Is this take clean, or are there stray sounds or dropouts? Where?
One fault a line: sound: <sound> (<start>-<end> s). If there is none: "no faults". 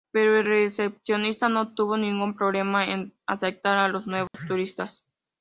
sound: dropout (4.3-4.3 s)